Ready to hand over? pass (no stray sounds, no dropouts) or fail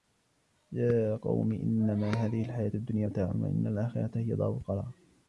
pass